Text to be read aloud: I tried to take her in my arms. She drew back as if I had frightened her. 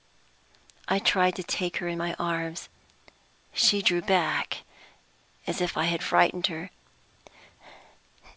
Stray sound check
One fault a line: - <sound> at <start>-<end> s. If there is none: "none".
none